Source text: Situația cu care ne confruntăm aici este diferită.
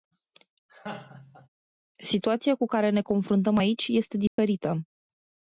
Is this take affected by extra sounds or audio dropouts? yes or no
yes